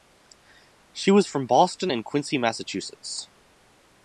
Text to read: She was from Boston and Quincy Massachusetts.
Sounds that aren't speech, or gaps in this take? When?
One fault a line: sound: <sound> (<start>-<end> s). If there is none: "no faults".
no faults